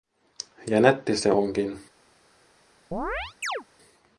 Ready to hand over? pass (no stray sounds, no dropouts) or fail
fail